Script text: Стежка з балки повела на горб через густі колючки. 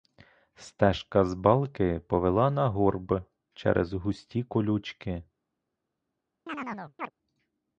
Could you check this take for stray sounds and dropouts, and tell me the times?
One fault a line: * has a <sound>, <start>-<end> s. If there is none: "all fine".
* has a chirp, 6.5-7.1 s